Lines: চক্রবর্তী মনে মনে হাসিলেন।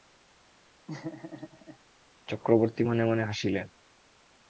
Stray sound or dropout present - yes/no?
yes